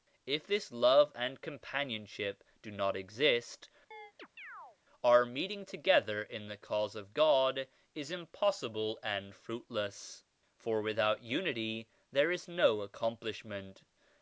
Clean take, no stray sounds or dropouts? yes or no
no